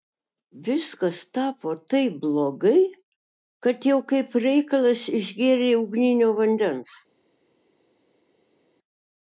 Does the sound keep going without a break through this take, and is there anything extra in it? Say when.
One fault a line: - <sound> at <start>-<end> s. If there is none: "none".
none